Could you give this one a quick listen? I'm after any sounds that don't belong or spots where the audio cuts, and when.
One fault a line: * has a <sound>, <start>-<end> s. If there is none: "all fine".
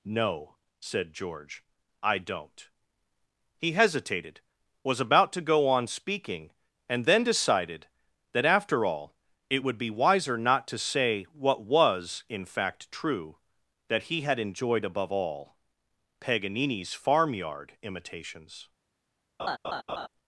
* has a laugh, 19.4-20.1 s